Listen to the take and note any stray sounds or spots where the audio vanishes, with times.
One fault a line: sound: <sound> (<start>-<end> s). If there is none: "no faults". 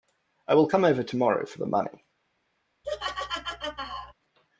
sound: laugh (2.8-4.1 s)